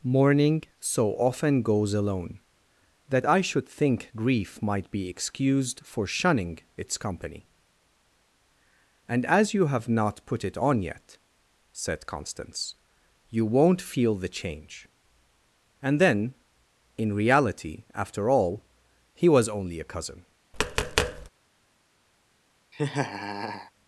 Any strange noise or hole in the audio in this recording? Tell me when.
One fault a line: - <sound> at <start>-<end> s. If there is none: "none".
- tap at 20.5-21.3 s
- laugh at 22.7-23.7 s